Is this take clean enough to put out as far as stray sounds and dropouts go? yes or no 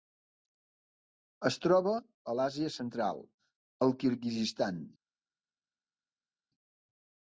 yes